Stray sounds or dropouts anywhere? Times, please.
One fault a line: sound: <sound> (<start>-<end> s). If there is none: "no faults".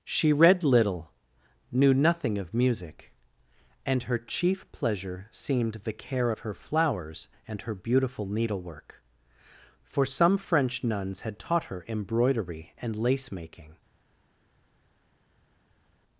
no faults